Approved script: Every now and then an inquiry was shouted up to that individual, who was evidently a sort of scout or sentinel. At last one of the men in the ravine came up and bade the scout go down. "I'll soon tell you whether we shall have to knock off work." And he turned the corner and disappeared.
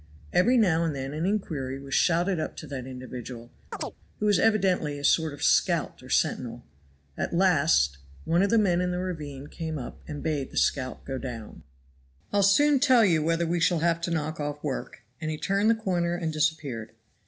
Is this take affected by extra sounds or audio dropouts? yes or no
yes